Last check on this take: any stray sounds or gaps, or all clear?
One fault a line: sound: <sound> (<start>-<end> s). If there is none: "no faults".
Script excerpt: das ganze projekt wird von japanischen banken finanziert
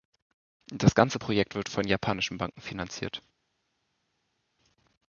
no faults